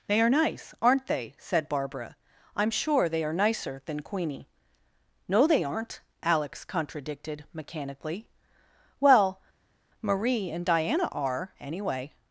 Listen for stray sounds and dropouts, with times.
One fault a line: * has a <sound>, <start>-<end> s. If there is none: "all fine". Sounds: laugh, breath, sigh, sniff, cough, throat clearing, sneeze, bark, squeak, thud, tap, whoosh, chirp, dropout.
all fine